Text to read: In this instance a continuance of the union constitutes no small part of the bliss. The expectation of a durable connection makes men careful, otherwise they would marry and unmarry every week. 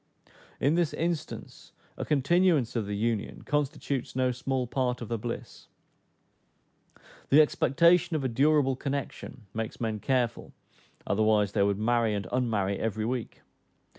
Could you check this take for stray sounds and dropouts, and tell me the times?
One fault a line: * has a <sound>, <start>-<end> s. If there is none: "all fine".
all fine